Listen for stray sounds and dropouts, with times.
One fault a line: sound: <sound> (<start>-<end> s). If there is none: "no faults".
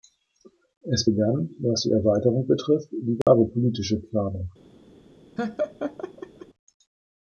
sound: dropout (3.2-3.3 s)
sound: laugh (5.4-6.5 s)